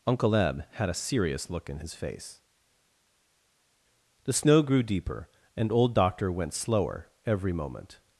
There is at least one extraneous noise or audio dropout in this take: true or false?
false